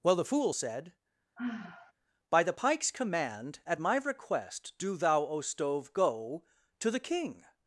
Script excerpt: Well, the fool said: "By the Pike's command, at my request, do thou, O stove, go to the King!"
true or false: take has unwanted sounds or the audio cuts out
true